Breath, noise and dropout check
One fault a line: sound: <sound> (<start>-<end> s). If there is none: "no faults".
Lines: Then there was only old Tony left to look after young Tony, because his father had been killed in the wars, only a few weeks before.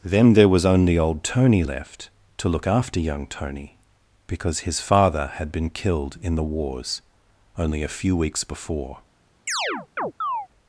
sound: chirp (9.5-10.5 s)